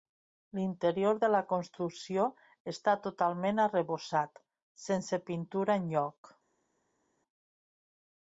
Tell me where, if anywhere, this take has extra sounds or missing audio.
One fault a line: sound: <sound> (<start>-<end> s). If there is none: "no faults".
no faults